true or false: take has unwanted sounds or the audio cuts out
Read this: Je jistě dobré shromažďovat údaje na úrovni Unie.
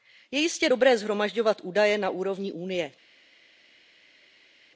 false